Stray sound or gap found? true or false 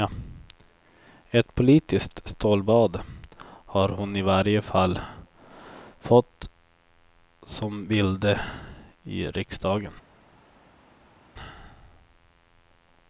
false